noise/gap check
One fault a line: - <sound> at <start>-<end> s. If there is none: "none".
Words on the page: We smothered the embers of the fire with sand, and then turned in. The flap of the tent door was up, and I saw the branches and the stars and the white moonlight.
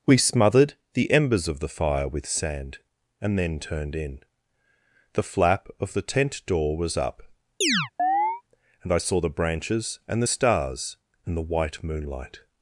- chirp at 7.6-8.4 s